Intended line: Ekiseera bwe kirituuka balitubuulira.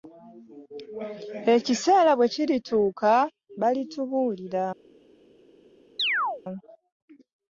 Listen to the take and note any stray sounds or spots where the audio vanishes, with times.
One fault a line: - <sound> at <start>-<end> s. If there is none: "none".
- chirp at 6.0-6.4 s